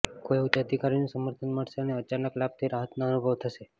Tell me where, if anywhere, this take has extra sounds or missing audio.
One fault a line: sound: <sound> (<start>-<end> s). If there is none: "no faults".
no faults